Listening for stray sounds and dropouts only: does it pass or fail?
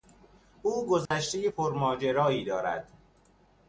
fail